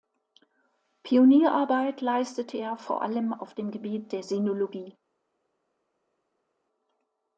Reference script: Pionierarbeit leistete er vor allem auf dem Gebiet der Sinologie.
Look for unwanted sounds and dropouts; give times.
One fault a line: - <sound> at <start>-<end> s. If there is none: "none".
none